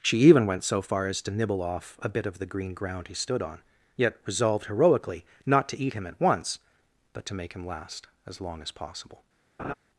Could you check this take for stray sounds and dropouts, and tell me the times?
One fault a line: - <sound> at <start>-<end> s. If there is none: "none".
- laugh at 9.6-9.7 s